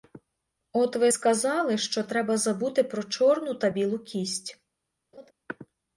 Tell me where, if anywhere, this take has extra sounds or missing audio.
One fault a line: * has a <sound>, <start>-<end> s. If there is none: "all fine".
* has a laugh, 5.1-5.3 s